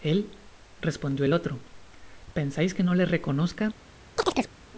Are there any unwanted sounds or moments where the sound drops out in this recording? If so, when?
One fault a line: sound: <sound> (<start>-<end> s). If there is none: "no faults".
sound: chirp (4.2-4.5 s)